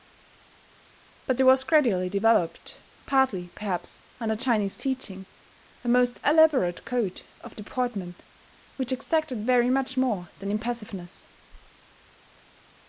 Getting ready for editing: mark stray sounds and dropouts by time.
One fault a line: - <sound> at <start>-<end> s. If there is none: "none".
none